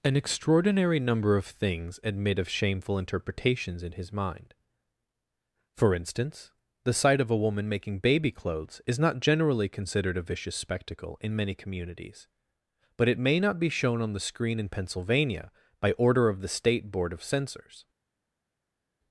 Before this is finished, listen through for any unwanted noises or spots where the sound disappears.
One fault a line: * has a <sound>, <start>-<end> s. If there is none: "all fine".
all fine